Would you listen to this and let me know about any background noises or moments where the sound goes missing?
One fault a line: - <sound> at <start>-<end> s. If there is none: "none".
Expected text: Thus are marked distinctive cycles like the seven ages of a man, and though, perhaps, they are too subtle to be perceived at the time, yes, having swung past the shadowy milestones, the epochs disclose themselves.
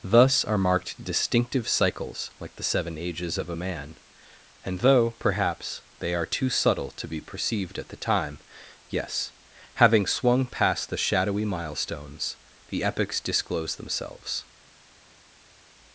none